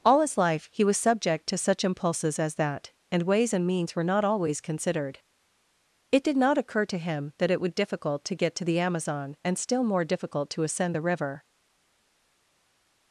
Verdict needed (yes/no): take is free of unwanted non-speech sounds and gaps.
yes